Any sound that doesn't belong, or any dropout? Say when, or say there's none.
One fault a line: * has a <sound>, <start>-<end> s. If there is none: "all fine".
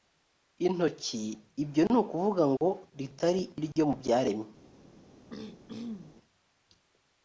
* has a dropout, 2.6-2.6 s
* has a throat clearing, 5.3-6.2 s